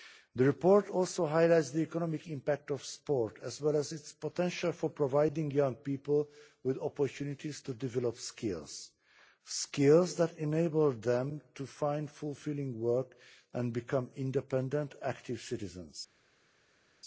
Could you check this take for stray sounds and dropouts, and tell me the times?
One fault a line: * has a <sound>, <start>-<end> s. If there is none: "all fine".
all fine